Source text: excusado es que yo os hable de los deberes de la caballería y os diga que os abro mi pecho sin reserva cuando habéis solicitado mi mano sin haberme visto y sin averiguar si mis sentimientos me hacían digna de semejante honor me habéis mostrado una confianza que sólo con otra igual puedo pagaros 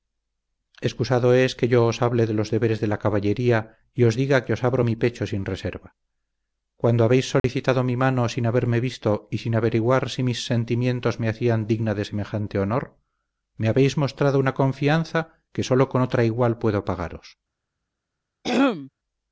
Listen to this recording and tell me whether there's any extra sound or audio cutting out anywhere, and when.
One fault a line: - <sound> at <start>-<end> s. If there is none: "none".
- dropout at 7.4-7.4 s
- throat clearing at 18.4-18.9 s